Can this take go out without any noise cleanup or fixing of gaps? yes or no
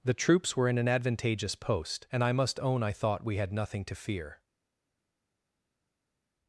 yes